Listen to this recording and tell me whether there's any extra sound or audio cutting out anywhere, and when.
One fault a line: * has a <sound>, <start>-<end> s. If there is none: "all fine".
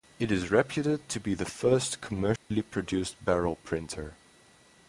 * has a dropout, 2.4-2.5 s